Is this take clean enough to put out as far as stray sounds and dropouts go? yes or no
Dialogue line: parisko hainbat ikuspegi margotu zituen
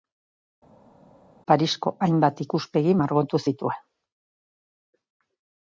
yes